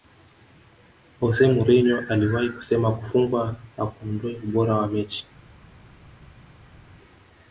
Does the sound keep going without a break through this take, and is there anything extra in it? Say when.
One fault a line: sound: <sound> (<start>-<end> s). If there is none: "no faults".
no faults